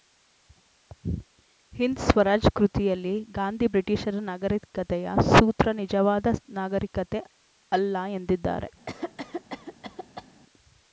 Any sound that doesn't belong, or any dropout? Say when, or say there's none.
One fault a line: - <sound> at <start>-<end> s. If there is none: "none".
- cough at 8.9-10.3 s